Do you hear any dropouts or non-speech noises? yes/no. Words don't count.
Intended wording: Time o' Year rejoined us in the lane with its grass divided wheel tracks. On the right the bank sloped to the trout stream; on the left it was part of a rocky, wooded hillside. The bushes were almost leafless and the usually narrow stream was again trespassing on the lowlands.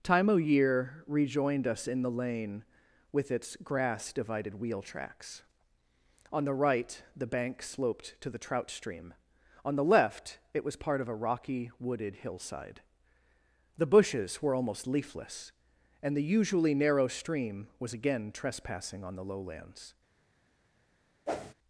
yes